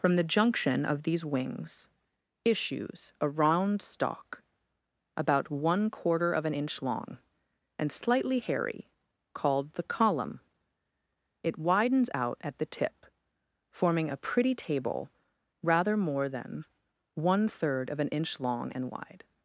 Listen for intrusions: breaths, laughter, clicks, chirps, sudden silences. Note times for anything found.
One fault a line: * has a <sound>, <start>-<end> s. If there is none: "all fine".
all fine